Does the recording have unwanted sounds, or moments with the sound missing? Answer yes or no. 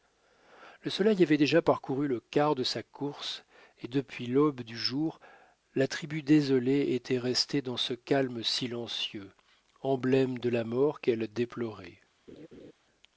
yes